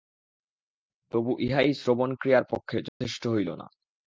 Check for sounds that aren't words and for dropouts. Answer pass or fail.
fail